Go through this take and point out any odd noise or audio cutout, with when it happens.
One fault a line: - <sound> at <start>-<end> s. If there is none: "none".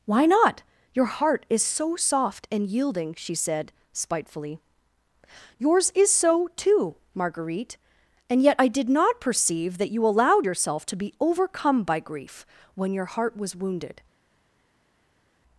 none